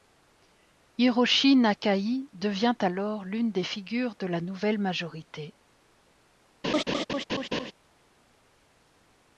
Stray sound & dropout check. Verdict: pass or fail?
fail